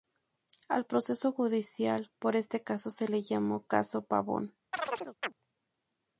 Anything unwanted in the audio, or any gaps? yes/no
yes